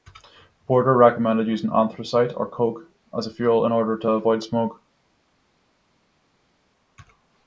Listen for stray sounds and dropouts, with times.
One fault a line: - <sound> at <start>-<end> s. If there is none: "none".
none